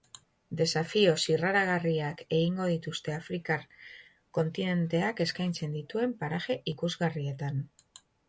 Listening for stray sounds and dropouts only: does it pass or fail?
pass